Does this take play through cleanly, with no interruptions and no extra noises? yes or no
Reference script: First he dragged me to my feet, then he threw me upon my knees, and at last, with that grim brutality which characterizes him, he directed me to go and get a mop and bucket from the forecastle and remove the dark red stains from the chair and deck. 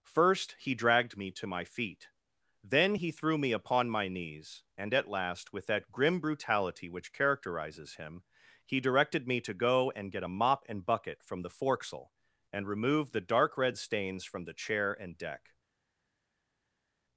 yes